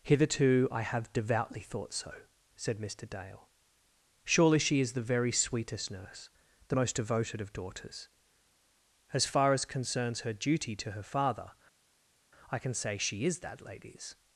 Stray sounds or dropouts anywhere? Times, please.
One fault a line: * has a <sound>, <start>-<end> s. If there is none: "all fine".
all fine